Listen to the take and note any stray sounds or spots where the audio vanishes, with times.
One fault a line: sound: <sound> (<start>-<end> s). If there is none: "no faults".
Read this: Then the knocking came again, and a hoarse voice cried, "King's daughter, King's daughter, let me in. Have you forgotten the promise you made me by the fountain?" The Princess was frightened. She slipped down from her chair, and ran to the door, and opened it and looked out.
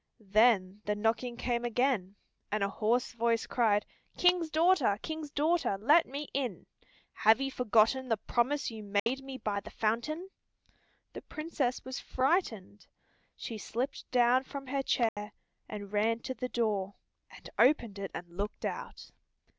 sound: dropout (9.0-9.1 s)
sound: dropout (15.1-15.2 s)